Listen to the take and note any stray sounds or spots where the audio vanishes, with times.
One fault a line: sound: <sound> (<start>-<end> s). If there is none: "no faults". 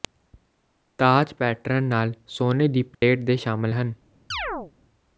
sound: dropout (2.9-3.0 s)
sound: chirp (4.3-4.7 s)